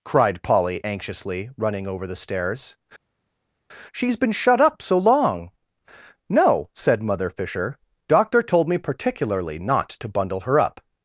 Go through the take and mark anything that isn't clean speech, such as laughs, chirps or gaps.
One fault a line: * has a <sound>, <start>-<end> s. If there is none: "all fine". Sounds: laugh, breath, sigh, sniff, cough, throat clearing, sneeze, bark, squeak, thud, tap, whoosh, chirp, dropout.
all fine